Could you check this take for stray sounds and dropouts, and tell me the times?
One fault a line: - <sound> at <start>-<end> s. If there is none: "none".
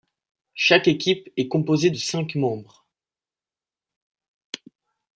none